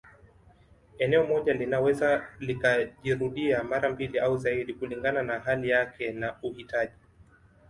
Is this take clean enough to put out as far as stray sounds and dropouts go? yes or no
yes